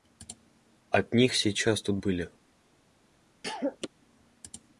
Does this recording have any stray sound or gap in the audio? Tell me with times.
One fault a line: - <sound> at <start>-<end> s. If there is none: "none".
- cough at 3.4-3.9 s